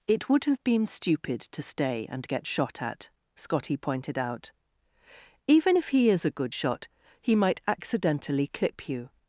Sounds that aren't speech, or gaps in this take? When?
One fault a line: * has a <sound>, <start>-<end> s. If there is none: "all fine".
all fine